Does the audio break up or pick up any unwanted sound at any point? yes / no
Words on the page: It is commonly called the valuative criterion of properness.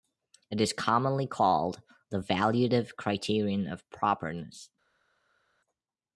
no